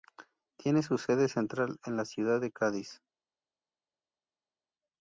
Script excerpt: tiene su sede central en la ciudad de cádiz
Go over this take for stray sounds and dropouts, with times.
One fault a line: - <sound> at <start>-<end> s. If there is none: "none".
none